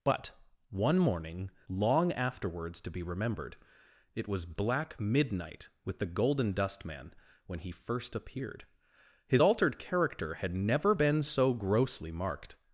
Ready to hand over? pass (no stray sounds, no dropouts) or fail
pass